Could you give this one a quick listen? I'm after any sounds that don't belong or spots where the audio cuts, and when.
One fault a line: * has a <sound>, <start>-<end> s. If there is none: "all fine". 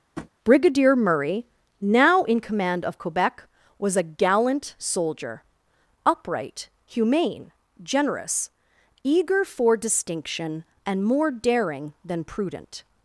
* has a tap, 0.2-0.3 s